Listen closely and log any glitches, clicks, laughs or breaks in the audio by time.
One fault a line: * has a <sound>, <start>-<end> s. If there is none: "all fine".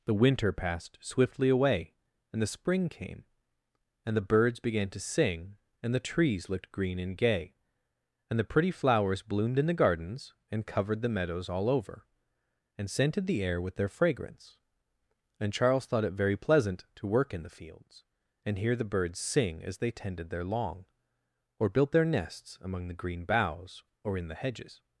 all fine